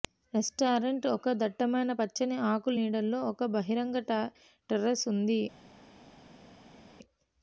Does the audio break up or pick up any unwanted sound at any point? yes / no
no